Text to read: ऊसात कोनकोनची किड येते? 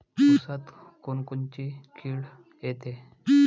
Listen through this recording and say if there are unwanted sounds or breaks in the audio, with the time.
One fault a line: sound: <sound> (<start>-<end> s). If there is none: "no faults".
no faults